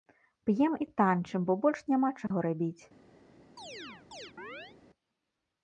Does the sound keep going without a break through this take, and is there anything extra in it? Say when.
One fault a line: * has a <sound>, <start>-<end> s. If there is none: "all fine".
* has a dropout, 2.3-2.3 s
* has a chirp, 3.6-4.8 s